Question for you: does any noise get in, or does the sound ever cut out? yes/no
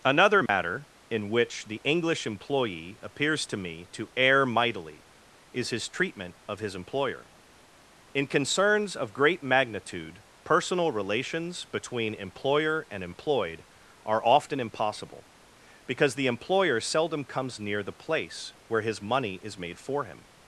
yes